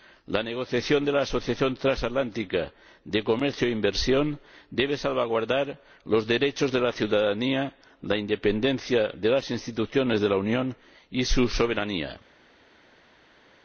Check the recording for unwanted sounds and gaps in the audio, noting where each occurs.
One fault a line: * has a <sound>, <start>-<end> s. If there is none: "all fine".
all fine